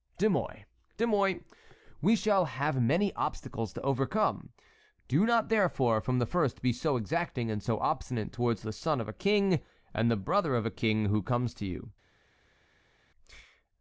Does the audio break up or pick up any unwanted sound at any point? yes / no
no